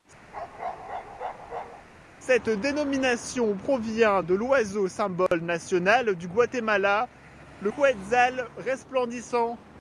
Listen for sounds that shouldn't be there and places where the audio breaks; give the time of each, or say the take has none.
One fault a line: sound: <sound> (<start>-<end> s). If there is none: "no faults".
sound: bark (0.3-1.9 s)
sound: dropout (5.3-5.3 s)